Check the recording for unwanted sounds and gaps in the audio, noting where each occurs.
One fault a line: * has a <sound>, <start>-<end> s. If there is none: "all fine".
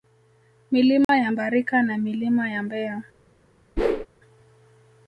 * has a dropout, 1.0-1.1 s
* has a whoosh, 3.8-4.1 s